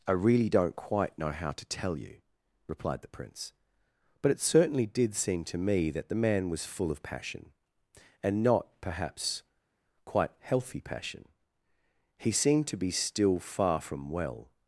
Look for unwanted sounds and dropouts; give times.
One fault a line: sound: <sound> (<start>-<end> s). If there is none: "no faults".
no faults